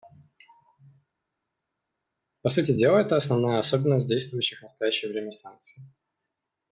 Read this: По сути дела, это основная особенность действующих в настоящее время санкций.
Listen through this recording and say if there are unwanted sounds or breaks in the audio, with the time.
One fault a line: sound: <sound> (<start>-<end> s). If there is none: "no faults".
no faults